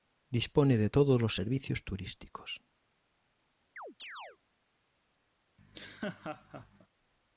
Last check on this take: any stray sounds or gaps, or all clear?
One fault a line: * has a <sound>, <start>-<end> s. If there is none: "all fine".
* has a chirp, 3.8-4.4 s
* has a laugh, 5.6-6.9 s